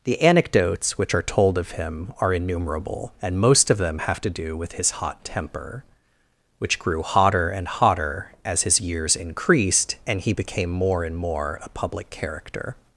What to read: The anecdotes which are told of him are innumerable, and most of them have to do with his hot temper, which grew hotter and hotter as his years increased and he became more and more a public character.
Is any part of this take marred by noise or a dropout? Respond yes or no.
no